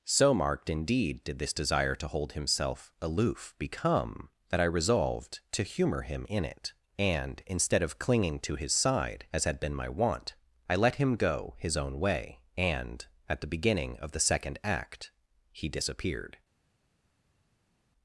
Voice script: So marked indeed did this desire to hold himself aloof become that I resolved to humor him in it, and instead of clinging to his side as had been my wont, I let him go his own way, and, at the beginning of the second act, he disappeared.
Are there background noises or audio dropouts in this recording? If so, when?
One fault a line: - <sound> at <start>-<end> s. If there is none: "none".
none